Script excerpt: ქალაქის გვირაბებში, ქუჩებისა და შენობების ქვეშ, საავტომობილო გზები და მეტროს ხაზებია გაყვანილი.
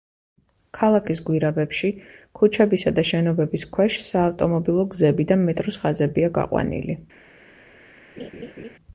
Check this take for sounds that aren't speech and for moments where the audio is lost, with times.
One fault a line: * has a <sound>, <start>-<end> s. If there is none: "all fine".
* has a laugh, 8.2-8.8 s